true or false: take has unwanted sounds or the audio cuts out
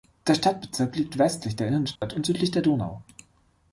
true